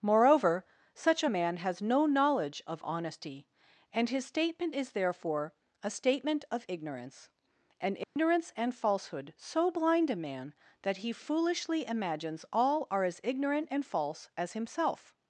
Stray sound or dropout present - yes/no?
yes